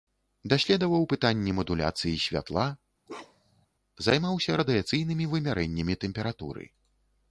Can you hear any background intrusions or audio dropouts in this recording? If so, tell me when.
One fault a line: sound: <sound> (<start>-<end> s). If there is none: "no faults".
sound: bark (3.1-3.7 s)